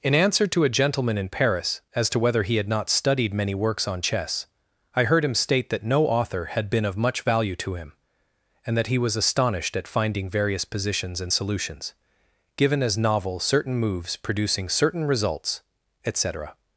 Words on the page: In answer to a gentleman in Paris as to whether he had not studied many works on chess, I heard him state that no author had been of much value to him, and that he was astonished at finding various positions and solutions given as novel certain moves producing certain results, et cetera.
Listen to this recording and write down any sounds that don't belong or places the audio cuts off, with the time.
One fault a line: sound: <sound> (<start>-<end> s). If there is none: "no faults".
no faults